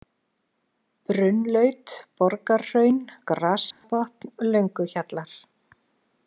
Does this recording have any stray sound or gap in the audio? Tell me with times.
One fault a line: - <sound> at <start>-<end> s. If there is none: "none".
- dropout at 3.7-3.8 s